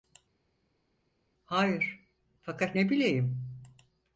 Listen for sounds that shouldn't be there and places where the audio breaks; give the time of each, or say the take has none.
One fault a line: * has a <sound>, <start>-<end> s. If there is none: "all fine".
all fine